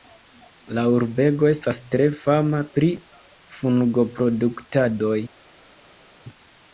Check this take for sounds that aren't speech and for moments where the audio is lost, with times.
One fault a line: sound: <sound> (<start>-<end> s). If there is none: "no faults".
no faults